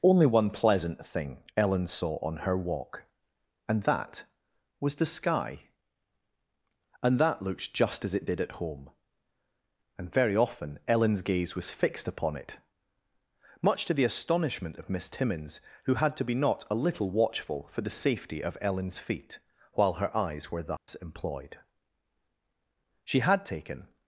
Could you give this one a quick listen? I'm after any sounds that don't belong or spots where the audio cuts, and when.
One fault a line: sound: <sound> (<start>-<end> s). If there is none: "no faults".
sound: dropout (20.8-20.9 s)